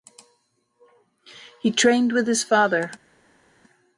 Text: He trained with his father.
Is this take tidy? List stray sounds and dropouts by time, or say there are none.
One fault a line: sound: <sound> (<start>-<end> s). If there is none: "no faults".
no faults